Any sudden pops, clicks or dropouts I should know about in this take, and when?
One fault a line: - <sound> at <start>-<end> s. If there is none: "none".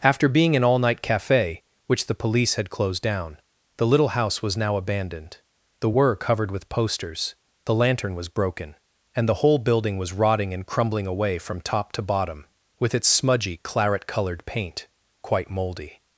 none